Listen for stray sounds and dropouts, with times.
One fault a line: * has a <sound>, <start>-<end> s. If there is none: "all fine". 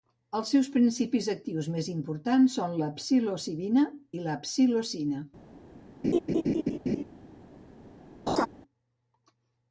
* has a laugh, 6.0-7.0 s
* has a laugh, 8.3-8.5 s